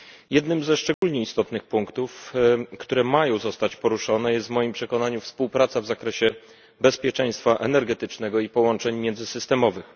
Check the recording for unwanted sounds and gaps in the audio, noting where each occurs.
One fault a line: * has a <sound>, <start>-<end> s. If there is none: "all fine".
* has a dropout, 0.9-1.0 s